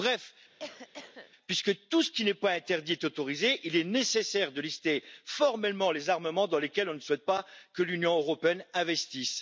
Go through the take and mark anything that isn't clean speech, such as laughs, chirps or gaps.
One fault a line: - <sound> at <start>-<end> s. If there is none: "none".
- cough at 0.6-1.3 s